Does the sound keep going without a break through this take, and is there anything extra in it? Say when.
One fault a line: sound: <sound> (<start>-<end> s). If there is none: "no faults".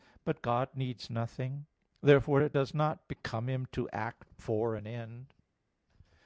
no faults